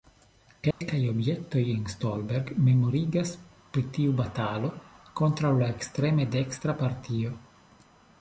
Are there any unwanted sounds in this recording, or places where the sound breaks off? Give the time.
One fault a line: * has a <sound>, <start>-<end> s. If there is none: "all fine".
* has a dropout, 0.7-0.8 s